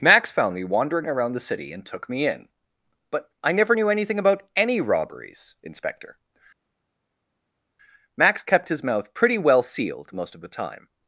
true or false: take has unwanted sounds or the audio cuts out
false